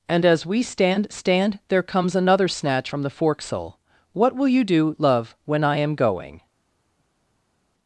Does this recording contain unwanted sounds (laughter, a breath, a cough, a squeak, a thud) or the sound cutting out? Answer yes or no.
no